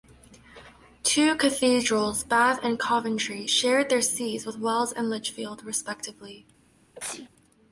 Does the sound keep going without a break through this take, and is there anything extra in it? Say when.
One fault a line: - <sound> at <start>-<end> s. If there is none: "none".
- sneeze at 7.0-7.3 s